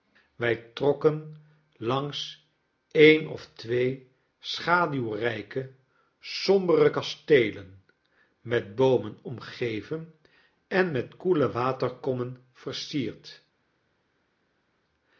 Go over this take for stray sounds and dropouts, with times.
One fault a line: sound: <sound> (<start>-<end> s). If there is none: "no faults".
no faults